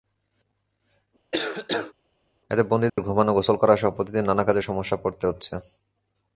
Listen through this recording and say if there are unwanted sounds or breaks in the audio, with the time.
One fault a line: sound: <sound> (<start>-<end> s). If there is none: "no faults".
sound: cough (1.3-1.9 s)
sound: dropout (2.9-3.0 s)